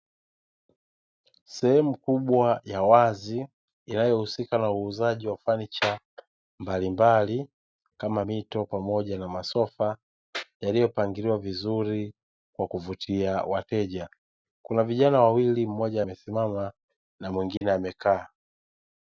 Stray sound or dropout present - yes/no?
yes